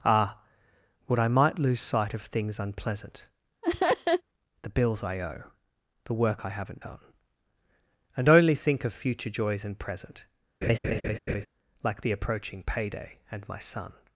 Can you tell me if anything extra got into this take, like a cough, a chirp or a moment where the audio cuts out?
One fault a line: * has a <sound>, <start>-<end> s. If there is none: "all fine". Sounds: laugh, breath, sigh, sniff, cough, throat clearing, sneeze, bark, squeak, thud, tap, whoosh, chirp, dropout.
* has a laugh, 3.6-4.2 s
* has a laugh, 10.6-11.5 s